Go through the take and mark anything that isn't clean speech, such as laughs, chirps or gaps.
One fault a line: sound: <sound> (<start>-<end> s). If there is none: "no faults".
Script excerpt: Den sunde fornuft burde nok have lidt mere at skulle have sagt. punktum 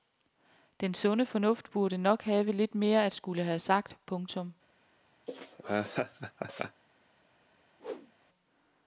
sound: laugh (5.3-6.8 s)
sound: whoosh (7.8-8.1 s)